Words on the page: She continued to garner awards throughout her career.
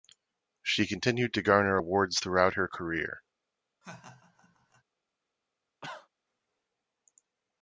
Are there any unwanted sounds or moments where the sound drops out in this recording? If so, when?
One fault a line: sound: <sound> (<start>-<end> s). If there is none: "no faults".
sound: laugh (3.8-4.8 s)
sound: cough (5.8-6.1 s)